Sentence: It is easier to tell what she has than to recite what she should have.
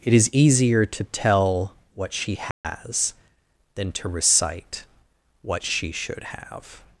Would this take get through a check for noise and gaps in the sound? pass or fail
fail